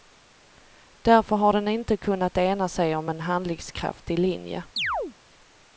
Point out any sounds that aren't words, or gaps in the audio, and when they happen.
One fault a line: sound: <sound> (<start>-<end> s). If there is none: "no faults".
sound: chirp (4.8-5.1 s)